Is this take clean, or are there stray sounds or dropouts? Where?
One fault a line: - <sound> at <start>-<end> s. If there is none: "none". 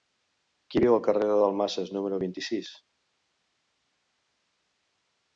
none